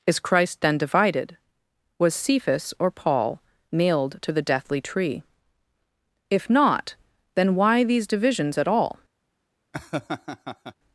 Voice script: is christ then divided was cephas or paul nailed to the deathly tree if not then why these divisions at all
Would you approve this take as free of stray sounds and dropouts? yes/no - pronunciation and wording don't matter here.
no